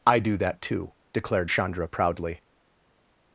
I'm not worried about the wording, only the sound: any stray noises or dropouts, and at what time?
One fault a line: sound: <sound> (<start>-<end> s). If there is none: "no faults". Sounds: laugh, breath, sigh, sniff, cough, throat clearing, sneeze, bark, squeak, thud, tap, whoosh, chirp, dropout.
no faults